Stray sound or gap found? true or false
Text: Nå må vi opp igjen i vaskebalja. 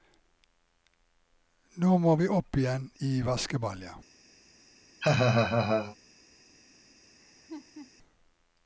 true